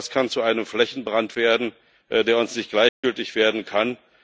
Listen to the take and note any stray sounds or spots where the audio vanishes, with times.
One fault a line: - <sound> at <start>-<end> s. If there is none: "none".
- dropout at 2.9-3.0 s